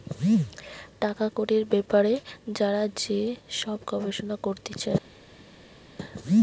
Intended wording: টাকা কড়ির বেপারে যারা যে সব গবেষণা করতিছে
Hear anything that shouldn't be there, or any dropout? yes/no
no